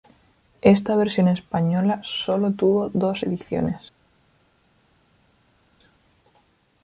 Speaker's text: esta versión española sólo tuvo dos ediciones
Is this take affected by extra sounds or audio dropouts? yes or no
no